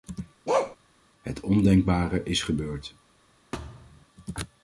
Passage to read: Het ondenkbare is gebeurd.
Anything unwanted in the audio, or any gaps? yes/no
yes